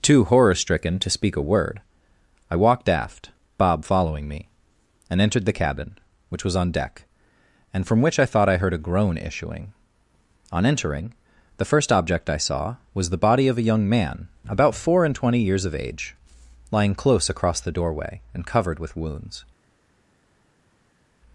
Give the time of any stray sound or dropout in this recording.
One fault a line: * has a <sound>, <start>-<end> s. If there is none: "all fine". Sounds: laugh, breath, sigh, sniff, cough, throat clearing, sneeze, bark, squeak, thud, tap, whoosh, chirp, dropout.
all fine